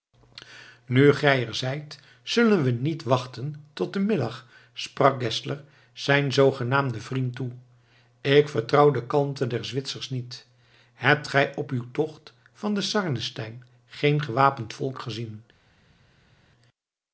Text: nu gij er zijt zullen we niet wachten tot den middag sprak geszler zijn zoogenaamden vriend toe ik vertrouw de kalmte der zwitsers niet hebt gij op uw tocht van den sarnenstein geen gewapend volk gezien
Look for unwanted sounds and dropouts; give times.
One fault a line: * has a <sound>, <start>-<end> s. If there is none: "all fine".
all fine